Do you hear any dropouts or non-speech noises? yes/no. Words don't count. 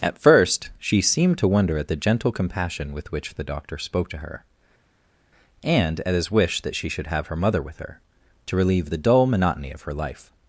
no